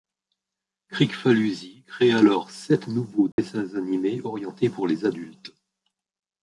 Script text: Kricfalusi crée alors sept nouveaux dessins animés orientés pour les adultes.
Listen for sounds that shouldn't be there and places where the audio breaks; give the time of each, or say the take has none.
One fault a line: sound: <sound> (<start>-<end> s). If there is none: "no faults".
sound: dropout (3.3-3.4 s)